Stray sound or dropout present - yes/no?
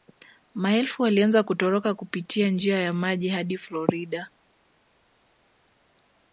no